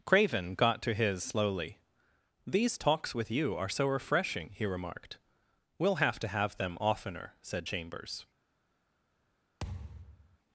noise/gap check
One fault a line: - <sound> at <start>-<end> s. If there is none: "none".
- thud at 9.6-10.4 s